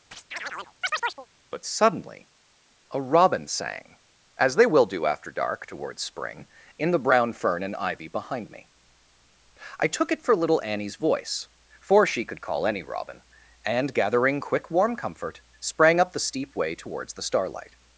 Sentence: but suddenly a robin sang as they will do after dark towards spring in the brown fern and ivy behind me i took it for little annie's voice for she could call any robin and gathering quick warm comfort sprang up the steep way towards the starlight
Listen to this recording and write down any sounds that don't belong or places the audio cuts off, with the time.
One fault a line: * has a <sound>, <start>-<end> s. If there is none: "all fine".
* has a chirp, 0.1-1.3 s